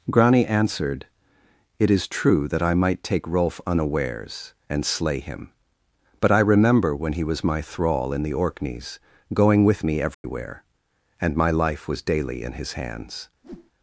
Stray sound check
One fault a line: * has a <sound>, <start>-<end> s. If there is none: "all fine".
* has a dropout, 10.1-10.2 s
* has a whoosh, 13.4-13.7 s